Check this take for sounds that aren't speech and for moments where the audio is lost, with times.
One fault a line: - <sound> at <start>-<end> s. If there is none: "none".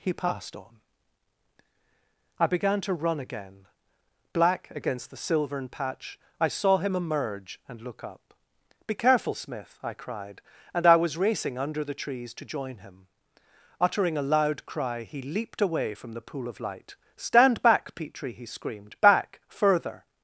none